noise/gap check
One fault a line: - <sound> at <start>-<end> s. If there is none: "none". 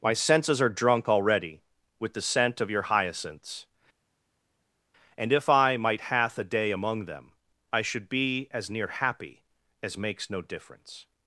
none